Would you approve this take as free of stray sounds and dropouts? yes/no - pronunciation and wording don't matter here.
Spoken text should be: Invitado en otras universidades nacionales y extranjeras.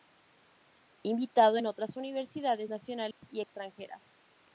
no